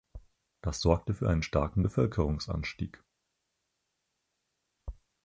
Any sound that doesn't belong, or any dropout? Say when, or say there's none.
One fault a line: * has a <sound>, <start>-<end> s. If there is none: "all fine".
all fine